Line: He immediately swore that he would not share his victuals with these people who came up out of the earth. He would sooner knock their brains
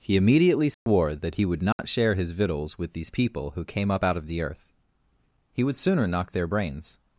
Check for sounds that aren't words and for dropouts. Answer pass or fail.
fail